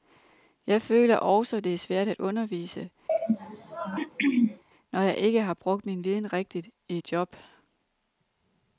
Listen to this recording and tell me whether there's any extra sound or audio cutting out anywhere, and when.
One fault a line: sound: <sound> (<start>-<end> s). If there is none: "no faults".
sound: throat clearing (3.1-4.6 s)